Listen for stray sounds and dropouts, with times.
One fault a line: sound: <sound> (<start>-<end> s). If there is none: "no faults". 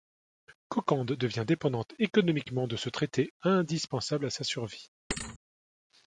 sound: thud (5.1-5.4 s)